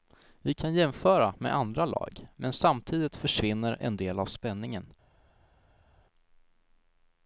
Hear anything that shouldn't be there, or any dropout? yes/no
no